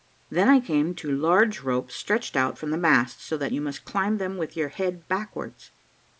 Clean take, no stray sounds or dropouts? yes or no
yes